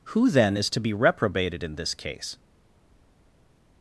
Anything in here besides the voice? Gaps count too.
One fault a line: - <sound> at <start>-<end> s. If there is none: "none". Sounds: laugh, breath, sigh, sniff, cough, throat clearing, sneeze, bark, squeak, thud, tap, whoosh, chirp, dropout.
none